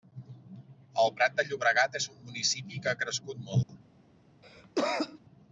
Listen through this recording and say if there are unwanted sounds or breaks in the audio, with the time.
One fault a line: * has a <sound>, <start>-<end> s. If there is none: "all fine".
* has a dropout, 3.6-3.7 s
* has a cough, 4.4-5.2 s